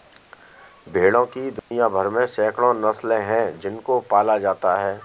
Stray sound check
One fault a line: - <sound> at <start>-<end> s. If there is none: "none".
- dropout at 1.6-1.7 s